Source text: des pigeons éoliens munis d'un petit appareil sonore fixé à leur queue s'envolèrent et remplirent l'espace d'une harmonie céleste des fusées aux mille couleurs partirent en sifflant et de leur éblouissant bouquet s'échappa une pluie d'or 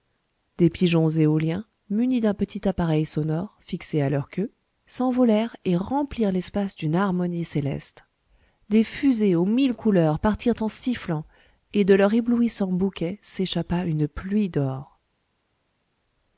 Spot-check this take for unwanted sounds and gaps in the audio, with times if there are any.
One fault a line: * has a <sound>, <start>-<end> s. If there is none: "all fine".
all fine